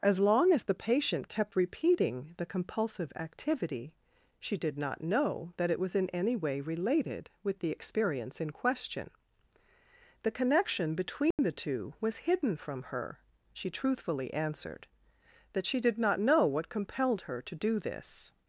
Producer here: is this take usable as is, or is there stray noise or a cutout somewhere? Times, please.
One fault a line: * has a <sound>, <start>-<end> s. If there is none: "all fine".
* has a dropout, 11.3-11.4 s